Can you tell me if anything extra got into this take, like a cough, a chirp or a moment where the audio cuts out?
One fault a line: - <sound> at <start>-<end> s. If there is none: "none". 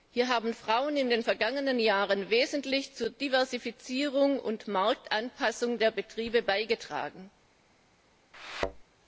- thud at 8.3-8.8 s